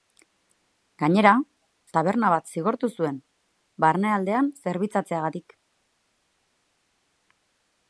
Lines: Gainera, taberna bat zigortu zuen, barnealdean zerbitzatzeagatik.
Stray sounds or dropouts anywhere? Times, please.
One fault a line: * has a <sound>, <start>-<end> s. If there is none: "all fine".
all fine